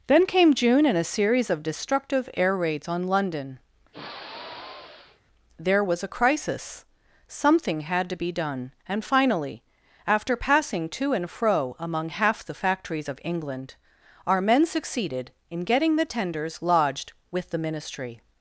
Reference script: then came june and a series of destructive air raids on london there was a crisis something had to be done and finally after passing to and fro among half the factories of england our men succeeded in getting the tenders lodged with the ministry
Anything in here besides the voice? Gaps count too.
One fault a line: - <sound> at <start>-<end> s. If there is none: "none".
- sigh at 3.9-5.2 s